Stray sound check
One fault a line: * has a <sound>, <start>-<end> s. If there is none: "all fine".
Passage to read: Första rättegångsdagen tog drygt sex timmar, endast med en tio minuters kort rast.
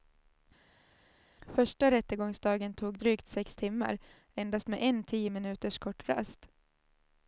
all fine